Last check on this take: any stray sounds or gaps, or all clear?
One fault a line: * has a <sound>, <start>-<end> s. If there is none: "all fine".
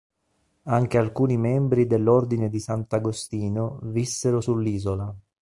all fine